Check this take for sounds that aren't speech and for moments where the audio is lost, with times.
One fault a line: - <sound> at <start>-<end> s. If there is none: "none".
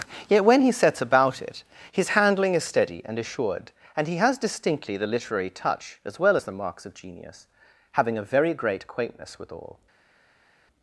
none